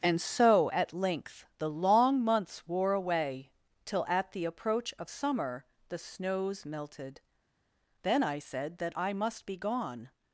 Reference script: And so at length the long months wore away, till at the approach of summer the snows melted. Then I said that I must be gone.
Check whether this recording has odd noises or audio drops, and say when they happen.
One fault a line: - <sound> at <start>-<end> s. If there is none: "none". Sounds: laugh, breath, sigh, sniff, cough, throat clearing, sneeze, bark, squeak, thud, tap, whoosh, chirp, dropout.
none